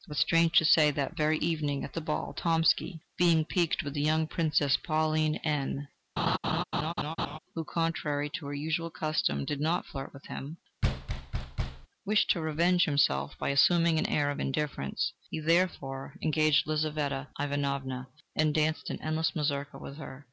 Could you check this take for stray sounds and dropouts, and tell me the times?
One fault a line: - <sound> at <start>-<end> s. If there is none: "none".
- laugh at 6.2-7.4 s
- thud at 10.8-11.9 s